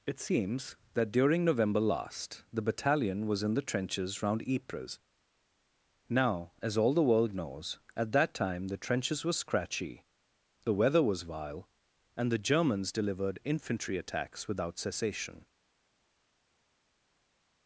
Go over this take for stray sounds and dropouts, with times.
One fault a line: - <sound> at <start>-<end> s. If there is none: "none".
none